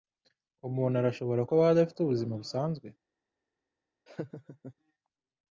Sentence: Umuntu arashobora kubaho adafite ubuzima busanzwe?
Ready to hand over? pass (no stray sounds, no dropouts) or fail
fail